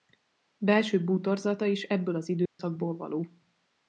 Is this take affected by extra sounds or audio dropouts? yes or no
yes